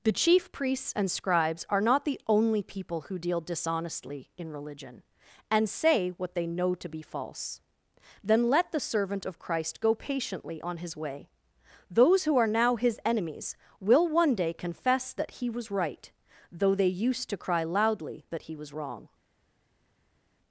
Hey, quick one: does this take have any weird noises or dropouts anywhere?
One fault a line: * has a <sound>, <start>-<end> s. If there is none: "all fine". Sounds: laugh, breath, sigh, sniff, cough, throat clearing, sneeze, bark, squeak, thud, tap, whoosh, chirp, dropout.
all fine